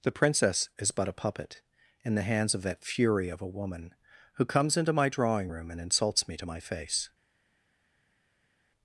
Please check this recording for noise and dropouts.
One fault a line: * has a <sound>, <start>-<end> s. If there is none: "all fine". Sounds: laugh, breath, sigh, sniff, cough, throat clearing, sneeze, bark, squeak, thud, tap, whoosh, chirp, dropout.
all fine